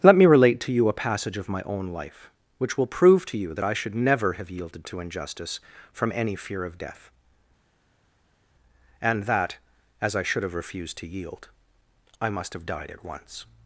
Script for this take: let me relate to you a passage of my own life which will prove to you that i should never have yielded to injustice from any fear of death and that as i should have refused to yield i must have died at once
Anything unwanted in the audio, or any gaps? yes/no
no